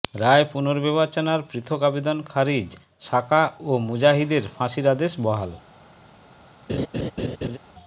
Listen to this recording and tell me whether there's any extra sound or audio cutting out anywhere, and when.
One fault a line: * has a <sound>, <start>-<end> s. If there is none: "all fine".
* has a laugh, 6.7-7.6 s